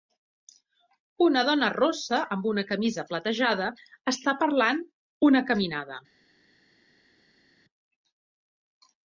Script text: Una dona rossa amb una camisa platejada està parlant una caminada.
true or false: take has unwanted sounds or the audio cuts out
false